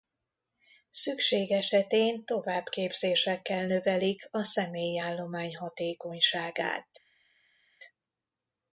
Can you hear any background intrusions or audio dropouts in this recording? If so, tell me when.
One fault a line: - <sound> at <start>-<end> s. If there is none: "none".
none